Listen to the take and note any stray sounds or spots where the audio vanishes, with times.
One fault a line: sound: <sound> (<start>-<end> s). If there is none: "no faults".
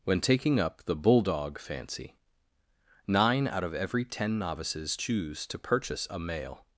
no faults